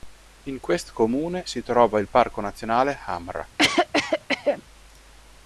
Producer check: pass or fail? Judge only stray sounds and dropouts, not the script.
fail